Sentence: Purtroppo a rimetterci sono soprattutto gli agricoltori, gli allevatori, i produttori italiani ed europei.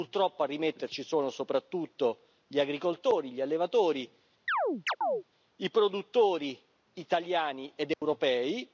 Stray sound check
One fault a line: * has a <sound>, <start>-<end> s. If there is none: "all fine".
* has a chirp, 4.5-5.2 s
* has a dropout, 7.9-8.0 s